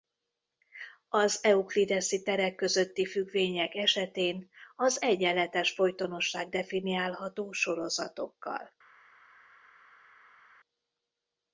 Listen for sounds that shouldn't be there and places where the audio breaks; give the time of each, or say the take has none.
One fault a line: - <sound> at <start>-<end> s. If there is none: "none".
none